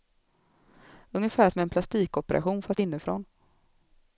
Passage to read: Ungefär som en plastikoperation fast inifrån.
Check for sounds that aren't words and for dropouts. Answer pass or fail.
pass